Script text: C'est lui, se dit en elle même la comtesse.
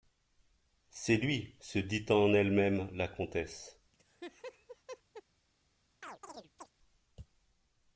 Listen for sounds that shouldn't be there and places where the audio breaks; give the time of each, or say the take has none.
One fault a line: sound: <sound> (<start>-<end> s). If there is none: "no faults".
sound: laugh (3.9-5.2 s)
sound: chirp (6.0-6.7 s)